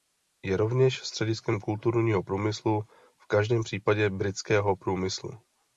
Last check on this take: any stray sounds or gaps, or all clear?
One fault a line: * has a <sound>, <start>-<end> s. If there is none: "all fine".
all fine